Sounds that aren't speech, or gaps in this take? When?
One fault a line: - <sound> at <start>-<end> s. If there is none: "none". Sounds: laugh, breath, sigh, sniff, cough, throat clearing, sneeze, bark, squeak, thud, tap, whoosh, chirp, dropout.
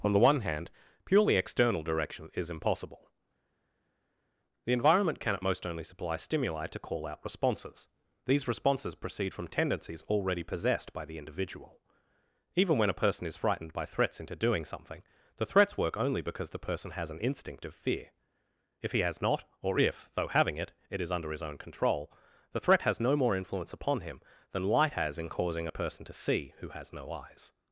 none